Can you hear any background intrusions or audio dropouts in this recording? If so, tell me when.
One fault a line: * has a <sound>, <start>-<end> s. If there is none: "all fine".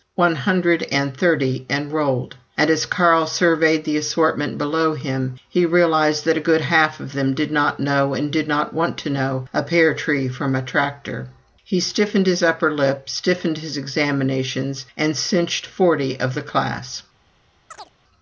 * has a chirp, 17.7-17.9 s